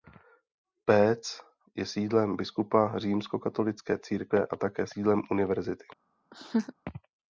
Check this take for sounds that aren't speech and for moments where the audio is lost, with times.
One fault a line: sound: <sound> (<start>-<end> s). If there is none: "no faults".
sound: laugh (6.3-6.7 s)